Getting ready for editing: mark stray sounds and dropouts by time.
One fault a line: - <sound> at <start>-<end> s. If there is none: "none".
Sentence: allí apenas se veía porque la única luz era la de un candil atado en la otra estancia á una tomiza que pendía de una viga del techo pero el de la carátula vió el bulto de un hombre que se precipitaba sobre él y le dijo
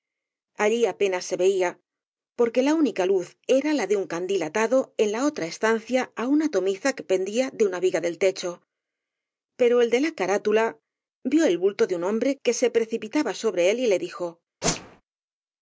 - whoosh at 14.6-15.0 s